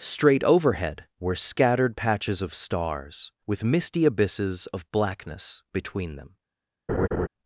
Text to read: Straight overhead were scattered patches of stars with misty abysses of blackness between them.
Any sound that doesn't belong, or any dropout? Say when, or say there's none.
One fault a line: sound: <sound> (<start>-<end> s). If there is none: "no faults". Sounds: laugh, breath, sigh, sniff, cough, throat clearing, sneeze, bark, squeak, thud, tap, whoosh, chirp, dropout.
sound: laugh (6.9-7.3 s)